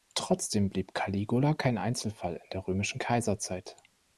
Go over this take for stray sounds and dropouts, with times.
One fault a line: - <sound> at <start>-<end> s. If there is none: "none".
none